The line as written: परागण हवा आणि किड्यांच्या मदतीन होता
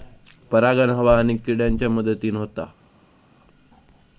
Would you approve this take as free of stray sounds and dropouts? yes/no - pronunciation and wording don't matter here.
yes